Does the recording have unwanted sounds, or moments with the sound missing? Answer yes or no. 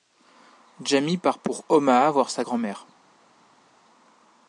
no